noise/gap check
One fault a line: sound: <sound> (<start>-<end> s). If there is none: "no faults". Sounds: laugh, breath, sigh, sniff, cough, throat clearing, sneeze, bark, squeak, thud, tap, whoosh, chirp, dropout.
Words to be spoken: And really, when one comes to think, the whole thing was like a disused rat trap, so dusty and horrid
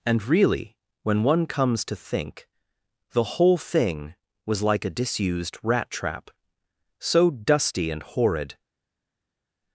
no faults